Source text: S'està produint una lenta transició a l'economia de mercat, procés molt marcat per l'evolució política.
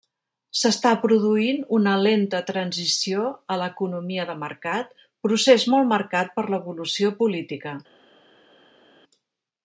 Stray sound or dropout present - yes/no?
no